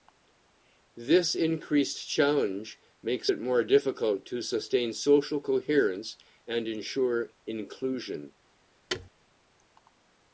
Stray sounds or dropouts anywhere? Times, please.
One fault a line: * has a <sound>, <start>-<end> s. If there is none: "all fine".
* has a thud, 8.9-9.1 s